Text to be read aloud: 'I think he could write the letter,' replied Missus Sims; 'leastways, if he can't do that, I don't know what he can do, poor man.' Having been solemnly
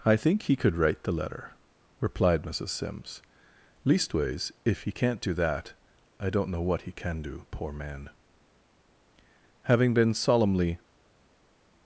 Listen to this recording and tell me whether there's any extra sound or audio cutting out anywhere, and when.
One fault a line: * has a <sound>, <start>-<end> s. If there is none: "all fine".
all fine